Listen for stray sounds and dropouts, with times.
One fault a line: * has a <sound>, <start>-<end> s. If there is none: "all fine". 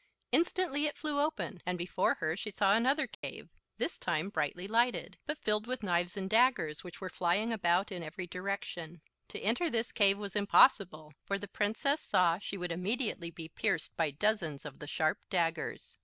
* has a dropout, 3.1-3.2 s